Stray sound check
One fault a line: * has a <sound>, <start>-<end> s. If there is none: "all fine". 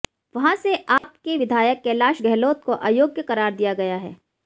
* has a dropout, 1.0-1.0 s